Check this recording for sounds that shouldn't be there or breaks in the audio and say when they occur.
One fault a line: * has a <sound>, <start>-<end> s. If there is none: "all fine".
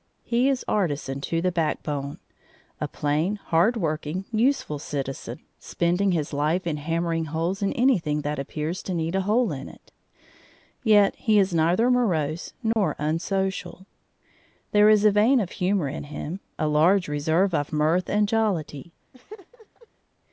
* has a dropout, 12.7-12.8 s
* has a laugh, 19.1-19.9 s